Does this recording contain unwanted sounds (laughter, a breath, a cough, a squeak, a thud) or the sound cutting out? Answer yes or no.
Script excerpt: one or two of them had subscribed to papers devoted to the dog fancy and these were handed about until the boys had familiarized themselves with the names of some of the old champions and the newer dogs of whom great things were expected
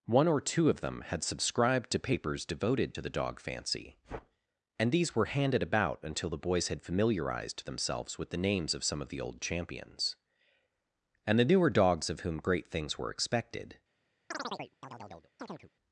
yes